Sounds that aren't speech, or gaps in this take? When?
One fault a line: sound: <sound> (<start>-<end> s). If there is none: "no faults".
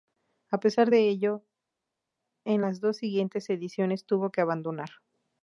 no faults